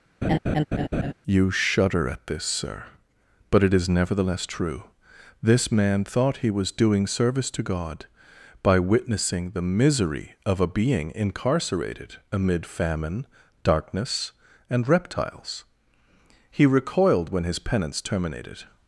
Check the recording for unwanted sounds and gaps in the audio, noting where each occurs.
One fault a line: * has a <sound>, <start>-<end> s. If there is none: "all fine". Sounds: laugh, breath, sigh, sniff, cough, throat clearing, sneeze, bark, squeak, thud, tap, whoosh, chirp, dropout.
* has a laugh, 0.2-1.1 s